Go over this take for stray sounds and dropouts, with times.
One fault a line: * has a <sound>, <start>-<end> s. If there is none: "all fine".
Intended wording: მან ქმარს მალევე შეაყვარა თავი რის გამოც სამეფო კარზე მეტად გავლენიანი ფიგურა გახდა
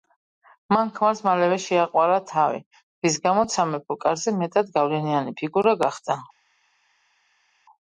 all fine